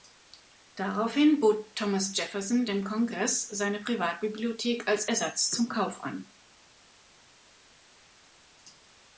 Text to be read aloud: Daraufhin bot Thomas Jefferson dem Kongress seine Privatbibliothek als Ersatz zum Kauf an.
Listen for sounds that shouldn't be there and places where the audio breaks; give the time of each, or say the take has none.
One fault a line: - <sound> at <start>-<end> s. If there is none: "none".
none